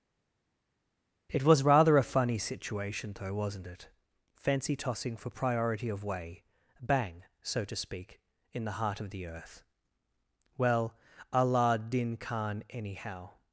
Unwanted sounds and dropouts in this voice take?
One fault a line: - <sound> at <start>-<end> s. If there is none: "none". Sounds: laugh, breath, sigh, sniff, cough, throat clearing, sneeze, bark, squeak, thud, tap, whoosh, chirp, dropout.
none